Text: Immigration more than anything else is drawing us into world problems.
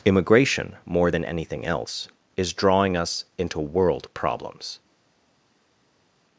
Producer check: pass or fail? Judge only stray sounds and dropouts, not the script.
pass